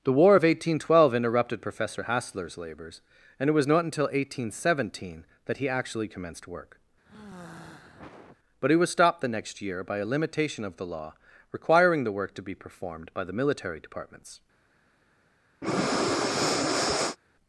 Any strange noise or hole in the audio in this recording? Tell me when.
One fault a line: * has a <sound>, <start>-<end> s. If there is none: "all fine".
* has a sigh, 7.0-8.4 s
* has a breath, 15.6-17.2 s